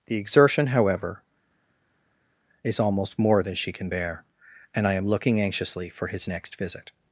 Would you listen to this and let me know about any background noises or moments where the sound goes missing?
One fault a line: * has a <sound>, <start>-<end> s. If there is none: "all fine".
all fine